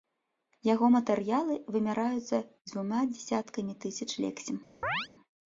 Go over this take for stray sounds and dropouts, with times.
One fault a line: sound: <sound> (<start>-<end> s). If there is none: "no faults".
sound: chirp (4.8-5.1 s)